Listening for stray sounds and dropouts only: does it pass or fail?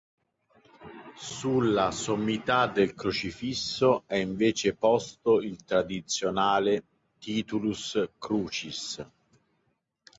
pass